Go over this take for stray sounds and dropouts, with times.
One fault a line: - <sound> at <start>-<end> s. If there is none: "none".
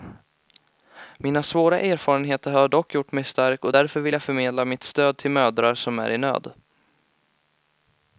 none